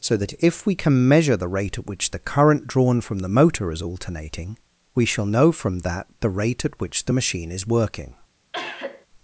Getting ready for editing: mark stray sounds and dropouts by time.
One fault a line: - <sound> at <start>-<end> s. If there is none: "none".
- cough at 8.5-9.1 s